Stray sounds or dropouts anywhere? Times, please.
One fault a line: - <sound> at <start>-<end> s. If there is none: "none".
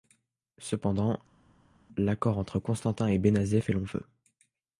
none